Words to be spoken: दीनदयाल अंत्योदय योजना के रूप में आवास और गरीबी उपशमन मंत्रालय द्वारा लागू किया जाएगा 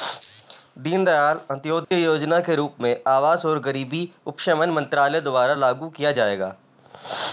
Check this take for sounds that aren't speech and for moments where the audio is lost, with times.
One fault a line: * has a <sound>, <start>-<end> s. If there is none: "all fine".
* has a dropout, 1.8-1.9 s